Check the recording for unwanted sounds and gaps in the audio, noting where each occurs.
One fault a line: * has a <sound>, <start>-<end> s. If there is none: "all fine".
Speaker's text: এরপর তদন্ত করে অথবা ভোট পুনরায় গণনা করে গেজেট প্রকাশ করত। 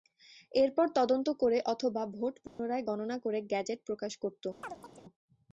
* has a dropout, 2.5-2.6 s
* has a chirp, 4.6-5.0 s